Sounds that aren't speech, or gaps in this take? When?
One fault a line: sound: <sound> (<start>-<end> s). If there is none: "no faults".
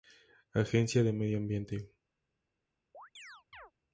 sound: chirp (2.9-3.7 s)